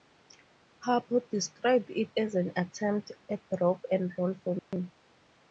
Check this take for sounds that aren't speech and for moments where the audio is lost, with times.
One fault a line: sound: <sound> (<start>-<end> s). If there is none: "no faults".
sound: dropout (4.6-4.7 s)